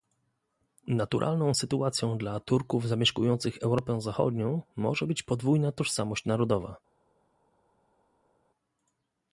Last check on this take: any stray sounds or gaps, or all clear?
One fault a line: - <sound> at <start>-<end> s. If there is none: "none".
none